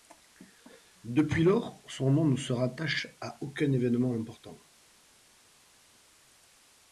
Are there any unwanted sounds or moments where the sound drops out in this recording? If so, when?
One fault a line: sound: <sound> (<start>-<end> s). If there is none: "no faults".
no faults